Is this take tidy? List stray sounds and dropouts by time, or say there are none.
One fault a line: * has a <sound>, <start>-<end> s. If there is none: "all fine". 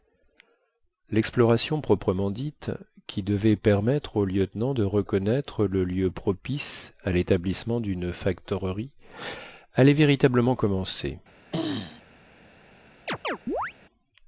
* has a throat clearing, 11.5-12.0 s
* has a chirp, 13.1-13.7 s